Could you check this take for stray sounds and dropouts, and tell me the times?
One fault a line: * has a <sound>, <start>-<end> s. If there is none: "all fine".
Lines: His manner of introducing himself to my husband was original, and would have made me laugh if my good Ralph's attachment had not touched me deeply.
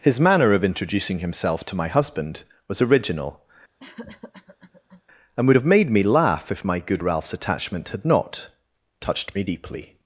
* has a cough, 3.8-5.0 s